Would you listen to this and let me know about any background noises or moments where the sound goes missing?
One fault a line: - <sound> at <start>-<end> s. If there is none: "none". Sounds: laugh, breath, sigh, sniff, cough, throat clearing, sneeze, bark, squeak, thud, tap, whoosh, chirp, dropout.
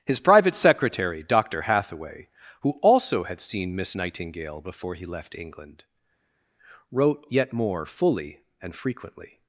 none